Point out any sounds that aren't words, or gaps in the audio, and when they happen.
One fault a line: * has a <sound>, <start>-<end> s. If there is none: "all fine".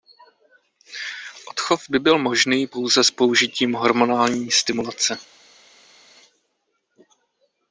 all fine